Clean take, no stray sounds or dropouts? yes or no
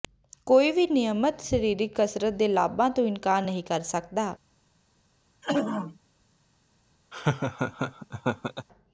no